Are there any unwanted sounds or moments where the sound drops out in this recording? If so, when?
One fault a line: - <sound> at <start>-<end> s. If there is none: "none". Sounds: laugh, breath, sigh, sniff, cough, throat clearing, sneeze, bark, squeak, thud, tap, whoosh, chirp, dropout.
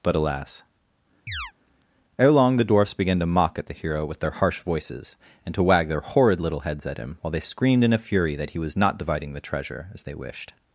- chirp at 1.3-1.5 s